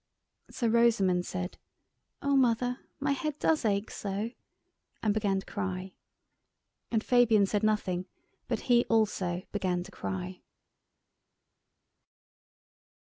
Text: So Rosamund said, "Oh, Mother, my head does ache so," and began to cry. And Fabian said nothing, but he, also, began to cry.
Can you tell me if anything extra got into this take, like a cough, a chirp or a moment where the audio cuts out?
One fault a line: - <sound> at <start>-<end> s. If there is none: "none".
none